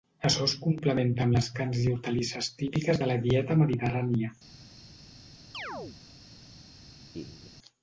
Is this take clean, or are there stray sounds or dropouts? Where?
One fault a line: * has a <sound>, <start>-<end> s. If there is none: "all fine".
* has a chirp, 5.5-6.0 s
* has a laugh, 7.1-7.5 s